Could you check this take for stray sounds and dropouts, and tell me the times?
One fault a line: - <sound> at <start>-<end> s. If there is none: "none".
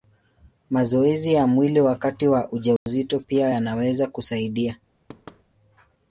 - dropout at 2.8-2.9 s
- thud at 5.1-5.4 s